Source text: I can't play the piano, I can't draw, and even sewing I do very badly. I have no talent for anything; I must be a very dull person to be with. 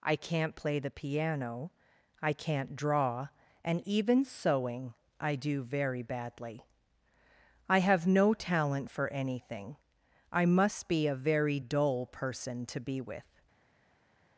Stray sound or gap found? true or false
false